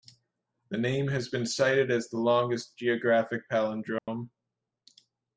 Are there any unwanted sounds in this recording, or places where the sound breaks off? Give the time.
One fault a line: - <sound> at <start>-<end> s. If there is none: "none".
- dropout at 4.0-4.1 s